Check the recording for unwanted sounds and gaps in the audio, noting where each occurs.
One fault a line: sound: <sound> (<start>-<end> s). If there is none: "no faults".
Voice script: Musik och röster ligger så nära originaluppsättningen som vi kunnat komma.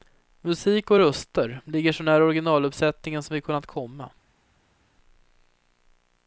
no faults